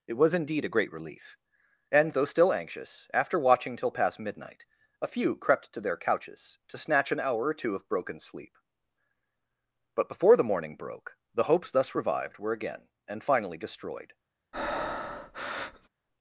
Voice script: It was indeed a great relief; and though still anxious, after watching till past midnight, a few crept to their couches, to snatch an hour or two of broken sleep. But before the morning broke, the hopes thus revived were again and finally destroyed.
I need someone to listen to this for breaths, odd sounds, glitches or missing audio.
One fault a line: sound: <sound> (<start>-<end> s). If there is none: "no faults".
sound: breath (14.5-15.9 s)